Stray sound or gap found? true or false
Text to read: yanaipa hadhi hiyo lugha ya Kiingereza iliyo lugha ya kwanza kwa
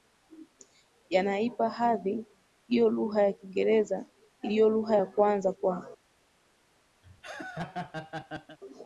true